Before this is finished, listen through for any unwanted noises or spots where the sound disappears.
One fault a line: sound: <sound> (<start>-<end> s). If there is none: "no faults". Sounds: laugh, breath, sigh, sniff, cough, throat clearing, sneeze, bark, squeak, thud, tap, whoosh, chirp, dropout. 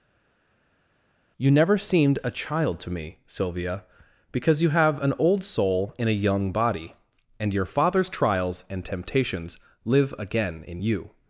no faults